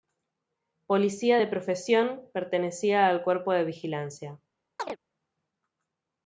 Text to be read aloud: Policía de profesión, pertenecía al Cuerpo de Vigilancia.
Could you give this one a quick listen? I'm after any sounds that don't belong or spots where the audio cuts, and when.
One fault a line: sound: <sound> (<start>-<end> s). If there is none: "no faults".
sound: chirp (4.8-5.0 s)